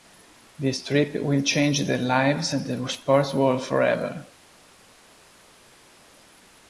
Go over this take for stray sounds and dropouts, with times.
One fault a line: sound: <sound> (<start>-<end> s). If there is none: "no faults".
no faults